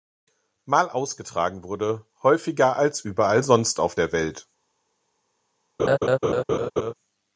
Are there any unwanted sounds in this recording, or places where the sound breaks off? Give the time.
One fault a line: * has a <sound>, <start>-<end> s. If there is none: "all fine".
* has a laugh, 5.8-6.9 s